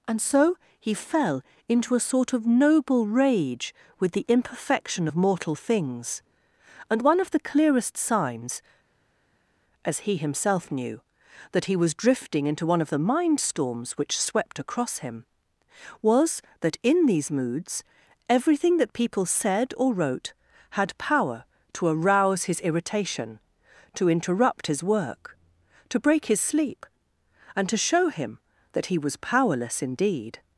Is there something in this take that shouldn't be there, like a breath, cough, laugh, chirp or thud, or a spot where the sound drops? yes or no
no